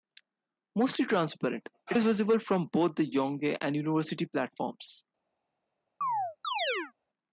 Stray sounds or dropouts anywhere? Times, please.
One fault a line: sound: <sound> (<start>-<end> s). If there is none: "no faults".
sound: chirp (6.0-6.9 s)